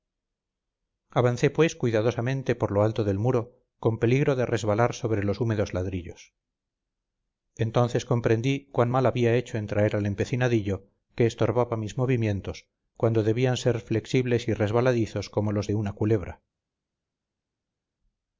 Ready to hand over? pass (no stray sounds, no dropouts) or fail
pass